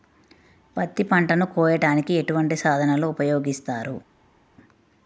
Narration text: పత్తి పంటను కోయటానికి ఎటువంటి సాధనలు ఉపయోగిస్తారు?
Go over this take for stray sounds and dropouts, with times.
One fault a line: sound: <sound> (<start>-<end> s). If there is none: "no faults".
no faults